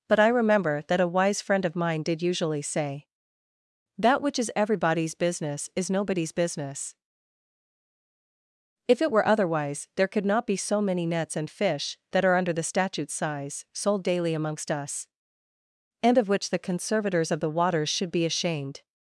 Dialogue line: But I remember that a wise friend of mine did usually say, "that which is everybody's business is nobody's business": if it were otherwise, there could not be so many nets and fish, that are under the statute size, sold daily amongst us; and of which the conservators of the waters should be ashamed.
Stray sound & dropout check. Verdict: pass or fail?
pass